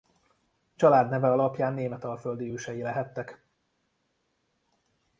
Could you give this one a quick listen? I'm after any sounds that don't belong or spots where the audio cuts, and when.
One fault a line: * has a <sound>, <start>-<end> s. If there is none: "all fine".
all fine